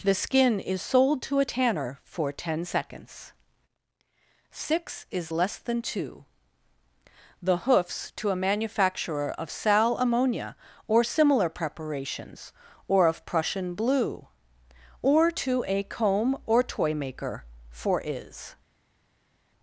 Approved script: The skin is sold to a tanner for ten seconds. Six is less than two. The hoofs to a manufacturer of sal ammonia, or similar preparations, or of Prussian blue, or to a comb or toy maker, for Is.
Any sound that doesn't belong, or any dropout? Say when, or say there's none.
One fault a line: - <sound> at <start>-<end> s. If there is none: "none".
none